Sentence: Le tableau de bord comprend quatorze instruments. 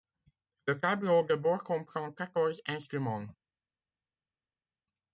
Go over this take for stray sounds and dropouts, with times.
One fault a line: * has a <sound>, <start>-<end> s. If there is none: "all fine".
all fine